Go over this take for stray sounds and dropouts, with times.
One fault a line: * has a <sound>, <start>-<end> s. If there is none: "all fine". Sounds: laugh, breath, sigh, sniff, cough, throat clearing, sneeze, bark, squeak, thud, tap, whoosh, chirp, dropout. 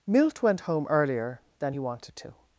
all fine